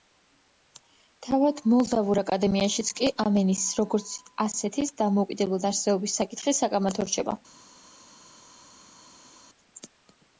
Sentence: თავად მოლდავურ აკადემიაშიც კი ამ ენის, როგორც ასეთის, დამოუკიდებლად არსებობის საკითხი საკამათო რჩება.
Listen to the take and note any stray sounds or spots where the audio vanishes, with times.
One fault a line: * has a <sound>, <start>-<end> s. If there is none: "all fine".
all fine